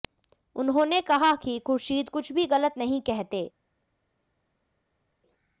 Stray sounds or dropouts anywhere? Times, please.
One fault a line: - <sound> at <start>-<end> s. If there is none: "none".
none